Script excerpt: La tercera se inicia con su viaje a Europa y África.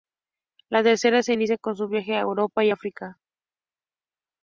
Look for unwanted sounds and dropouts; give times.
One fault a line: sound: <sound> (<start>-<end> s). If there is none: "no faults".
no faults